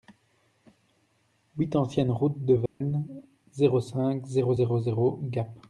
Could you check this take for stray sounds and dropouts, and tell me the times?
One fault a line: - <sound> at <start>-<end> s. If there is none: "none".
- dropout at 2.7-2.8 s